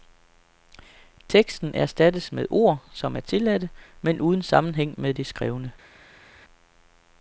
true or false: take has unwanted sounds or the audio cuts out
false